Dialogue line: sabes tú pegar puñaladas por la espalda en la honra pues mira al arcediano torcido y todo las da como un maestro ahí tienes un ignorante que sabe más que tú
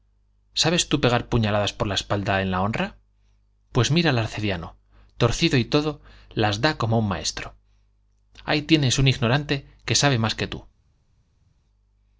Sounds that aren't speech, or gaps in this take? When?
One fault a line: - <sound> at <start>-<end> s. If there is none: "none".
none